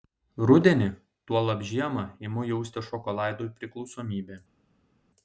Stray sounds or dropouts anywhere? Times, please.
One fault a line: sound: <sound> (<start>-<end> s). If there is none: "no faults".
no faults